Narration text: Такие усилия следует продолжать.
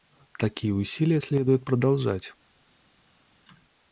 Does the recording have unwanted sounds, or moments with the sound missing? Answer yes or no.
no